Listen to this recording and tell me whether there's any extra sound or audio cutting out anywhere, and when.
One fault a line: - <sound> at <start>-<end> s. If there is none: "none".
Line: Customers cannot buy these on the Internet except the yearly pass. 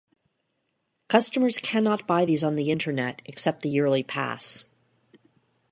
none